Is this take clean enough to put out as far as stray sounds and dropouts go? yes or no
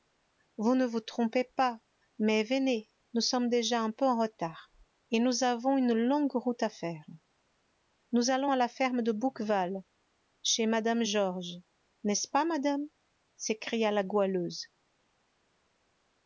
yes